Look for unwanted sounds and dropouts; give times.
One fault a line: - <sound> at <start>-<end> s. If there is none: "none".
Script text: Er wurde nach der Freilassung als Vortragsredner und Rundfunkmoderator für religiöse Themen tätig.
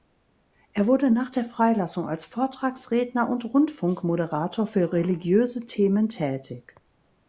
none